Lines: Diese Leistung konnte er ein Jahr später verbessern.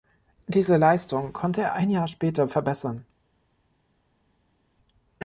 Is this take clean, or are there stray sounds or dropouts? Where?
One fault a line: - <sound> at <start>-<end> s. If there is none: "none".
none